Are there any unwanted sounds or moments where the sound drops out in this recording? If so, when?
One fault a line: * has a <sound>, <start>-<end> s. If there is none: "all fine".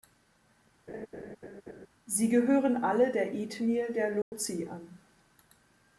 * has a laugh, 0.9-1.9 s
* has a dropout, 4.2-4.3 s